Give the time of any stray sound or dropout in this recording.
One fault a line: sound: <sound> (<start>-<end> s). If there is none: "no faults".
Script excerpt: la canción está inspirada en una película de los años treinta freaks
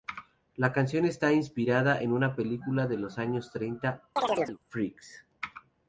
sound: chirp (4.2-4.6 s)